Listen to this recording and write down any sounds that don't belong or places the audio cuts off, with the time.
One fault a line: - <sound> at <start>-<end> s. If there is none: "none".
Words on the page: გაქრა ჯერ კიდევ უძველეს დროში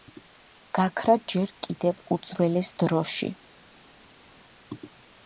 none